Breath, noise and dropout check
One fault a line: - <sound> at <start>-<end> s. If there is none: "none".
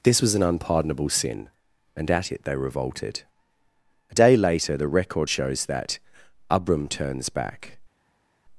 none